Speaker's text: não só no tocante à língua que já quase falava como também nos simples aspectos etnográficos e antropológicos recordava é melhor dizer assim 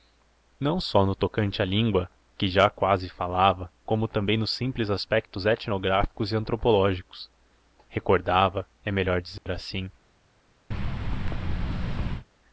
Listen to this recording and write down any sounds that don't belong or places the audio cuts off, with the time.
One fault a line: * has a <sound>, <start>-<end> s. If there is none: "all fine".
* has a dropout, 9.4-9.5 s
* has a thud, 10.7-12.3 s